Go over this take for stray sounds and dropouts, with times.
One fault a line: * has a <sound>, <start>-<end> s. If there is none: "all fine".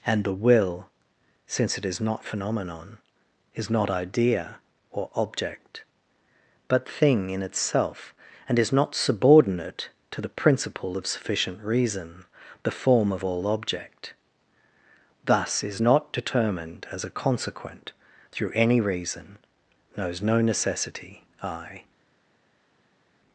all fine